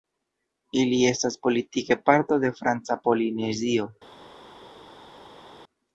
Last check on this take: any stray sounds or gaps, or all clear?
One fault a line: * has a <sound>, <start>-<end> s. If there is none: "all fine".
all fine